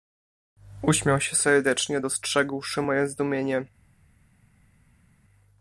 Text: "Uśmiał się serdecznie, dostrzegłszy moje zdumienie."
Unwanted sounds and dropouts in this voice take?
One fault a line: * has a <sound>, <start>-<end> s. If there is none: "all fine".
all fine